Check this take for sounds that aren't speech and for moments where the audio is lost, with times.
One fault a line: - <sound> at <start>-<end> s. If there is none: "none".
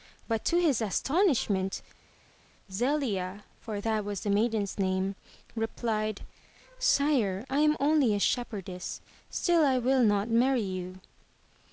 none